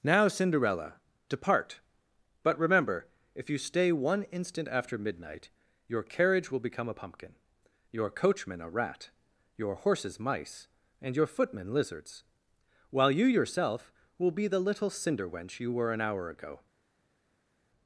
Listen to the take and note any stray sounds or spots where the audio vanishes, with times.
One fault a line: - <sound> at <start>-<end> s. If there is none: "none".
none